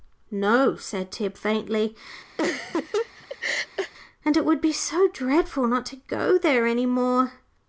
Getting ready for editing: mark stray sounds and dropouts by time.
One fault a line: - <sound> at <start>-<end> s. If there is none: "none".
- laugh at 2.4-3.9 s